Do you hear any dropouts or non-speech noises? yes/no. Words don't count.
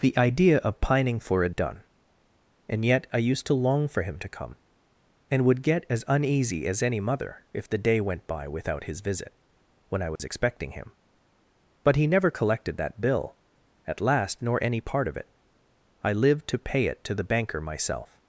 yes